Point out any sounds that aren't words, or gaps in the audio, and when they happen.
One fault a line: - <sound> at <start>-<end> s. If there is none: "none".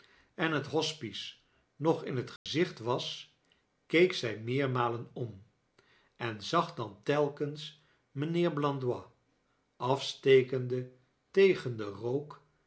- dropout at 2.4-2.5 s